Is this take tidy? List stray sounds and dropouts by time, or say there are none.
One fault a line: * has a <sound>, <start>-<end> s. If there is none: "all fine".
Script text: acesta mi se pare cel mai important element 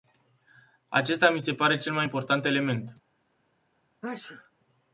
* has a sneeze, 4.0-4.5 s